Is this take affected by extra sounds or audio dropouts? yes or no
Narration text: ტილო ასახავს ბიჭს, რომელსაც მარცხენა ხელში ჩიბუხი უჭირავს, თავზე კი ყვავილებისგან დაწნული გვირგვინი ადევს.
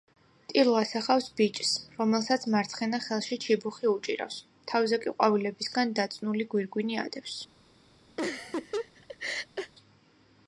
yes